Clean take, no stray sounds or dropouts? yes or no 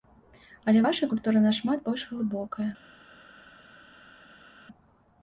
yes